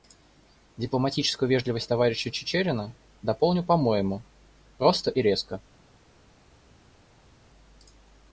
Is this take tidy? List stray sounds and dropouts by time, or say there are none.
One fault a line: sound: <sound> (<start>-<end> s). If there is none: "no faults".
no faults